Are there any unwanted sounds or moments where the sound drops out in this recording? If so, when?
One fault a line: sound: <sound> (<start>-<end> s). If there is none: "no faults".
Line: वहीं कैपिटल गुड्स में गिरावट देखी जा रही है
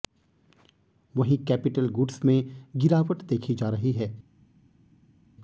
no faults